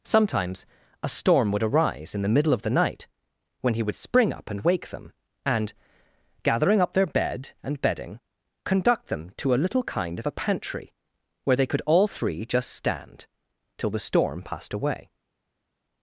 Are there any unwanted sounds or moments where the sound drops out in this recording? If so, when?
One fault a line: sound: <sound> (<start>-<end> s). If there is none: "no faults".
no faults